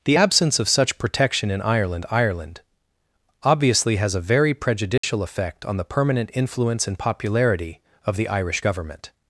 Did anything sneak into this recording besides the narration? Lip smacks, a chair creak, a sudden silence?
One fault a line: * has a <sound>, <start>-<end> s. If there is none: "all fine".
* has a dropout, 5.0-5.0 s